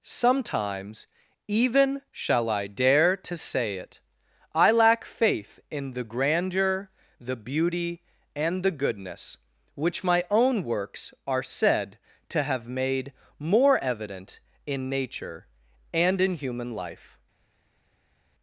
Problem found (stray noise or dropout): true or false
false